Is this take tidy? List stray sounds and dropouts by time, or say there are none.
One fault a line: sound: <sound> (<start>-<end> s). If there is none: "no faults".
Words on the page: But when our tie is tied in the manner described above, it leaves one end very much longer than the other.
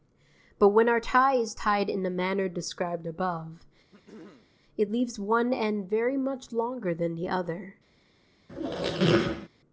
sound: throat clearing (3.9-4.5 s)
sound: squeak (8.5-9.5 s)